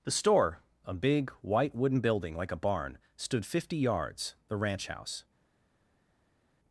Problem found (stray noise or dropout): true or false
false